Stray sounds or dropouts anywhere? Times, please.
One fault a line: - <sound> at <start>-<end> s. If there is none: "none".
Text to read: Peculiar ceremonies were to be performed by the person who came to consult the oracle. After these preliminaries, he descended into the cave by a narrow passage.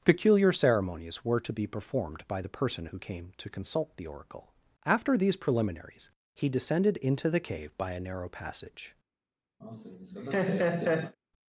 - laugh at 9.6-11.2 s